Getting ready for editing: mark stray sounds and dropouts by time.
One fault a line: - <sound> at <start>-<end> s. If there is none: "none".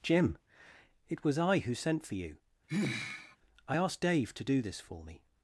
- sigh at 2.7-3.4 s